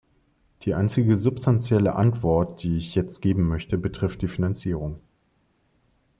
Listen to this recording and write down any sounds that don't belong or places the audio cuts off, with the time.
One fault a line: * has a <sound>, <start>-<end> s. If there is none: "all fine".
all fine